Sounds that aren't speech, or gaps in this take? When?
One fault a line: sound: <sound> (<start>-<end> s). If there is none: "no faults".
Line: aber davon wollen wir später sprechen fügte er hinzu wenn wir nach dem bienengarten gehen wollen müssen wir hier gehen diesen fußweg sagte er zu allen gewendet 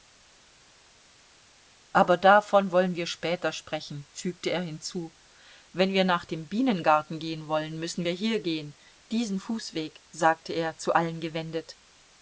no faults